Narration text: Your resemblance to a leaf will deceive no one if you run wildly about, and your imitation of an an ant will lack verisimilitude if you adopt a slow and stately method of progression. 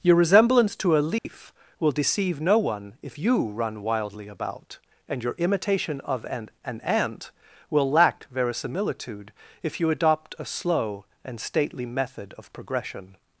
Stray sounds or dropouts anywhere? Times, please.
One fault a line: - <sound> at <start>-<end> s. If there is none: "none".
- dropout at 1.2-1.3 s